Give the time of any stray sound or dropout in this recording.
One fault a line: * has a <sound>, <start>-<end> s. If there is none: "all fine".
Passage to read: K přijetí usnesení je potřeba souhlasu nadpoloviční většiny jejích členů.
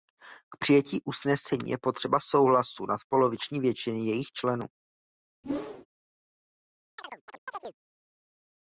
* has a whoosh, 5.4-5.9 s
* has a chirp, 7.0-7.8 s